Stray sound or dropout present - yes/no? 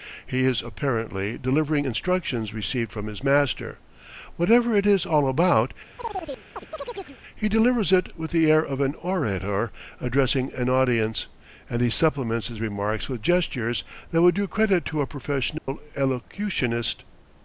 yes